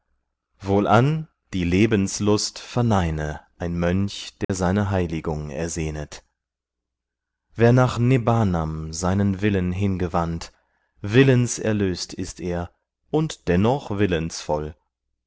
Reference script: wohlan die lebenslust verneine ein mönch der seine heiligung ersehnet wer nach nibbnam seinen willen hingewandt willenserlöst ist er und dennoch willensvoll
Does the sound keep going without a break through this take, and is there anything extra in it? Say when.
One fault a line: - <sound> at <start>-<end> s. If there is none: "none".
- dropout at 4.4-4.5 s